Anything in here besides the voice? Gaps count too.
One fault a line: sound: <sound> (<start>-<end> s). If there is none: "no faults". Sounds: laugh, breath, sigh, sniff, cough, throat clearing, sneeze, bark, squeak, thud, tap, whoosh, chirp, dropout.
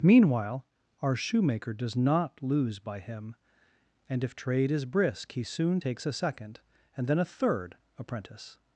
no faults